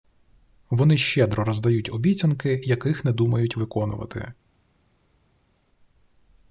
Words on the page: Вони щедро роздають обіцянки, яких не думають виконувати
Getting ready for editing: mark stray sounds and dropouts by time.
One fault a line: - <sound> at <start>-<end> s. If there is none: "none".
none